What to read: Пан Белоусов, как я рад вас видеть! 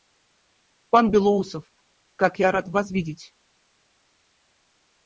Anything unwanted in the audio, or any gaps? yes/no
no